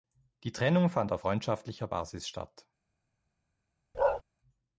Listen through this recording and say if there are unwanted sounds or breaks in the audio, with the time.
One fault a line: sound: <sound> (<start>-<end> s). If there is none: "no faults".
sound: bark (3.9-4.2 s)